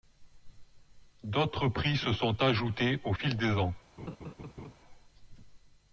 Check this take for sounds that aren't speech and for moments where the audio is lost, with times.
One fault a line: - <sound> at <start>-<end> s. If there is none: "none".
- laugh at 4.0-4.8 s